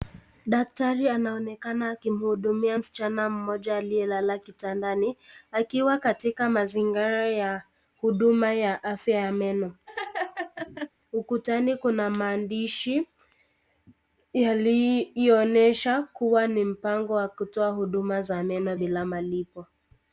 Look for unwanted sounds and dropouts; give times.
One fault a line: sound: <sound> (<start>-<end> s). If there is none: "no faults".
sound: laugh (9.9-10.9 s)